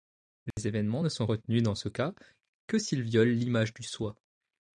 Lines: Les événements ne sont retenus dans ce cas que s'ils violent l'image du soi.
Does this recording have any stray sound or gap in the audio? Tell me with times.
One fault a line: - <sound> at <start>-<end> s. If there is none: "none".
- dropout at 0.5-0.6 s